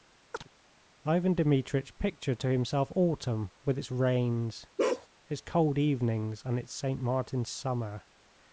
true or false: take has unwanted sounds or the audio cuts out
true